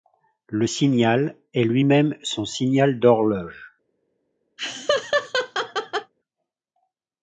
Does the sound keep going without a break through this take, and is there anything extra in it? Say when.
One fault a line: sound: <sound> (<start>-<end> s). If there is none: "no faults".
sound: laugh (4.6-6.1 s)